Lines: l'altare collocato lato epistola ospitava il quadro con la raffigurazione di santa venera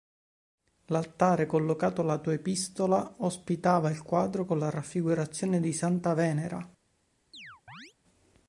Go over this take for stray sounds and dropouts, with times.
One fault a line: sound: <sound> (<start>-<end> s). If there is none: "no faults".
sound: chirp (7.3-7.9 s)